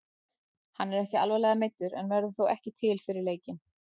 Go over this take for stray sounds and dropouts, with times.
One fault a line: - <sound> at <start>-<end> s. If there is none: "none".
none